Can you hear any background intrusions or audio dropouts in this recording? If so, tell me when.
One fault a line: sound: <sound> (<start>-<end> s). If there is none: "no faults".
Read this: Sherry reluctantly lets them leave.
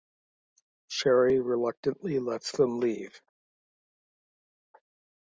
no faults